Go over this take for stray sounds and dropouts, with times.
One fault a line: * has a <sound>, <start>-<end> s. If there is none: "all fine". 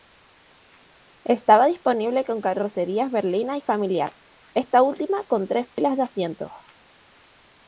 * has a dropout, 5.7-5.8 s